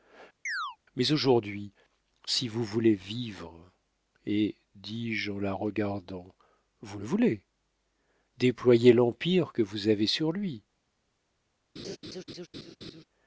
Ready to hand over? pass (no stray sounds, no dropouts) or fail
fail